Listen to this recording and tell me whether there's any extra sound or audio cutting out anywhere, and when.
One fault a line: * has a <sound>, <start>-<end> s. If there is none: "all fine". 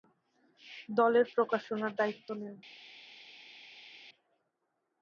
all fine